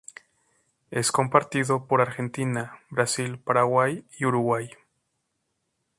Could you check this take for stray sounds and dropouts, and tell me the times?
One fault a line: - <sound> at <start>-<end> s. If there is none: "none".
none